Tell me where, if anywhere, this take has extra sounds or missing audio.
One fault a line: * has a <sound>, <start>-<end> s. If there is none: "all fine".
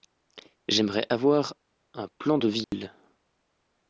* has a dropout, 2.6-2.7 s